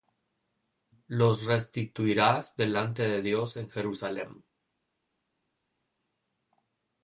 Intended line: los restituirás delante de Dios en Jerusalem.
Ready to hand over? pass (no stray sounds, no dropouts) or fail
pass